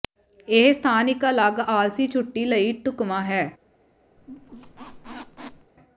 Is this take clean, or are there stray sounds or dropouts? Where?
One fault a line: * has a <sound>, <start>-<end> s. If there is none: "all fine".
* has a squeak, 4.2-5.7 s